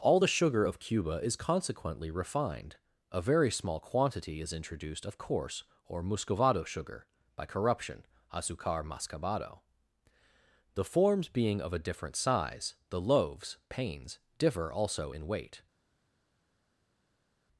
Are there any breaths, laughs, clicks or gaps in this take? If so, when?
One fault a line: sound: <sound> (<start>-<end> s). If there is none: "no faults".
no faults